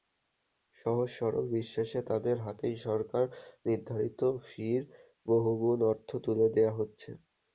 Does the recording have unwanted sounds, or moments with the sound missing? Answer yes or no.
no